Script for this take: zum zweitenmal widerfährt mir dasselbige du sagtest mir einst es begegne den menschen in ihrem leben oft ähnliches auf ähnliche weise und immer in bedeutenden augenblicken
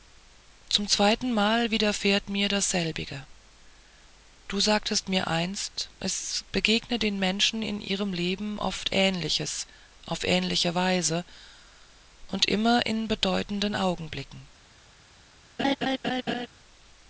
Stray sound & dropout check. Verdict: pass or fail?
fail